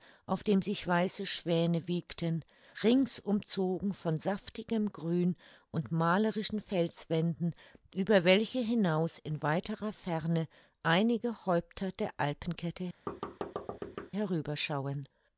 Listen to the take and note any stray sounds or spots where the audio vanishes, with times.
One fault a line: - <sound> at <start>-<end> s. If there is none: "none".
- thud at 13.1-14.1 s